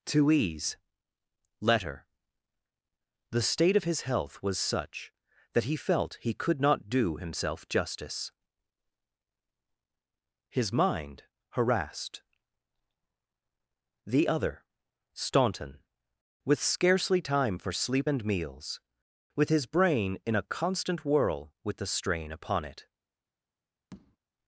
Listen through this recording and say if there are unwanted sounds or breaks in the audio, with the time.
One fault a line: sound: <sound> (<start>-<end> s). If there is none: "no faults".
sound: tap (23.9-24.2 s)